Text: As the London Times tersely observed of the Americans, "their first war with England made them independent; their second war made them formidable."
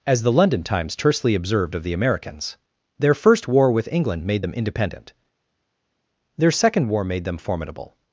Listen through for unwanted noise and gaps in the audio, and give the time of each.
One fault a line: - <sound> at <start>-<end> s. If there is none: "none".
none